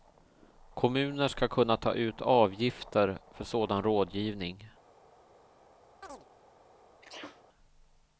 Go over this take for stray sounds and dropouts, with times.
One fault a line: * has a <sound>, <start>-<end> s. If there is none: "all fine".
* has a chirp, 6.0-6.3 s
* has a sneeze, 7.0-7.4 s